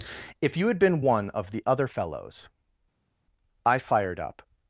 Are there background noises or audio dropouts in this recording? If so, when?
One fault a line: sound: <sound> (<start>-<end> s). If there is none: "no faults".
no faults